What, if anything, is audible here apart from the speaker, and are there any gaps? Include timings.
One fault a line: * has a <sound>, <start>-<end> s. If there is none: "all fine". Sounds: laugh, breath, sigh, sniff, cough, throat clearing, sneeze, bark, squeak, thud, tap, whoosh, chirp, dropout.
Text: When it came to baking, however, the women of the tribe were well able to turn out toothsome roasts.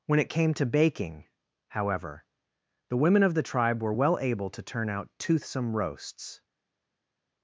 all fine